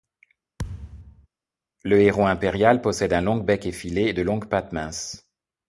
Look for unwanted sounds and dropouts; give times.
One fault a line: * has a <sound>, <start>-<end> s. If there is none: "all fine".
* has a thud, 0.6-1.3 s